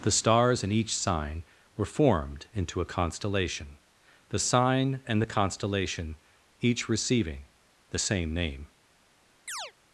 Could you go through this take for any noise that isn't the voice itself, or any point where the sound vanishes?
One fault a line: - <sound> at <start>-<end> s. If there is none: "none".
- chirp at 9.5-9.7 s